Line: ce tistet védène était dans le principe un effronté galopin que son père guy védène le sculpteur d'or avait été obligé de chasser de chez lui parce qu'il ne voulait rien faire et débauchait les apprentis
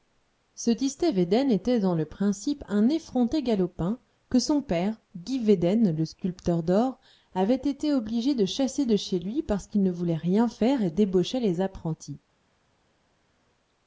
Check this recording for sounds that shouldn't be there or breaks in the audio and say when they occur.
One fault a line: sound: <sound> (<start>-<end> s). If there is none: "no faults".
no faults